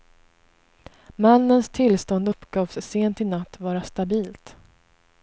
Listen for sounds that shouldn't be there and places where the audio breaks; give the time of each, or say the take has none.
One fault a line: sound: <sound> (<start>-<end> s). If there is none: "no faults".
no faults